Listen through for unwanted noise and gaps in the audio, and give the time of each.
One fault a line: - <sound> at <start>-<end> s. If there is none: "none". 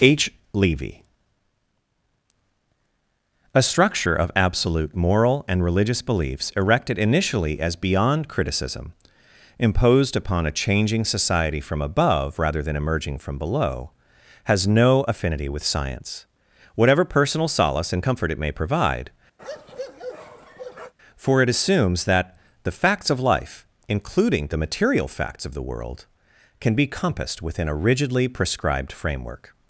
- bark at 19.4-20.9 s